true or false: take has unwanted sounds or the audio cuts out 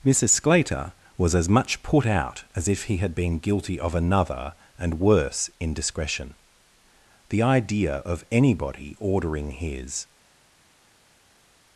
false